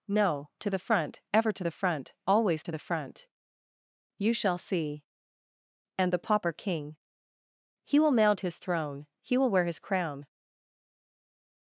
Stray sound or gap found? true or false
false